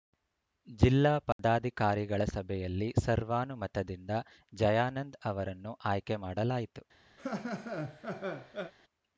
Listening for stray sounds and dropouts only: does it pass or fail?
fail